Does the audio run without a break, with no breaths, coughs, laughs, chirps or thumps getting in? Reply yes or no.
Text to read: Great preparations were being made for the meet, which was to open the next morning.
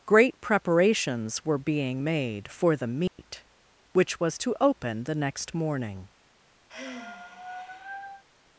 no